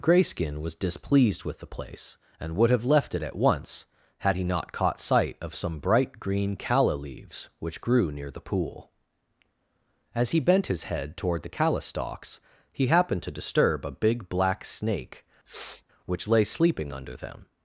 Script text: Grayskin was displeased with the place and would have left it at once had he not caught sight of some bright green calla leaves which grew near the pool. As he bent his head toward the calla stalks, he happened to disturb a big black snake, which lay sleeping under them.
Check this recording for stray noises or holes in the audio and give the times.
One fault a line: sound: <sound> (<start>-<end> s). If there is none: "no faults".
sound: sniff (15.5-15.8 s)